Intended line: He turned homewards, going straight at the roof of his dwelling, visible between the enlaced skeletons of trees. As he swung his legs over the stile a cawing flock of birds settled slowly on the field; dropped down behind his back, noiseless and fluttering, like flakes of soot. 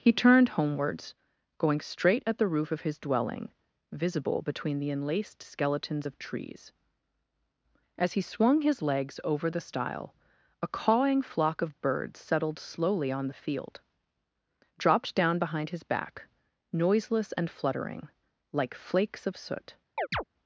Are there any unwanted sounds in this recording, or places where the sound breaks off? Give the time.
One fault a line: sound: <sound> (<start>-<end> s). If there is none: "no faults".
sound: chirp (20.0-20.2 s)